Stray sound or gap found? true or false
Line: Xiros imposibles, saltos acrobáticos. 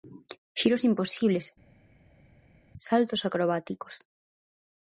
false